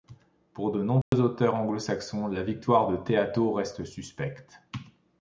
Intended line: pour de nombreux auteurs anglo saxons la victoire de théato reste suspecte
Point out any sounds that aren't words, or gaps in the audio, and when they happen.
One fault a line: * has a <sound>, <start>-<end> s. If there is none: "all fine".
* has a dropout, 1.0-1.1 s